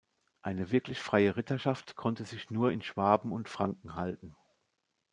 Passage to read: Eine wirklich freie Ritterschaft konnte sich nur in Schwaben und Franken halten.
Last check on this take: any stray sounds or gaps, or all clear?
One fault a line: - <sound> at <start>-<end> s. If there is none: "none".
none